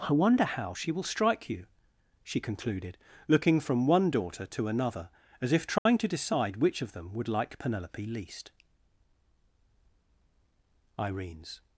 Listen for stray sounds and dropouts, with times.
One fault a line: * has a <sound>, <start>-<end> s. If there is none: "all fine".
* has a dropout, 5.8-5.9 s